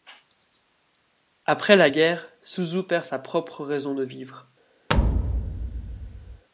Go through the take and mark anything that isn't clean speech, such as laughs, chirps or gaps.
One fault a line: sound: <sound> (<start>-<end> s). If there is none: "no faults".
sound: thud (4.9-6.4 s)